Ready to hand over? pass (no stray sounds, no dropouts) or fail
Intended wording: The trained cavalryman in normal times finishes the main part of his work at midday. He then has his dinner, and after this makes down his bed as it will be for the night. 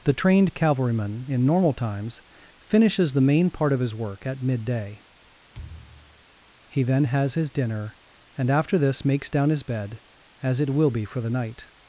fail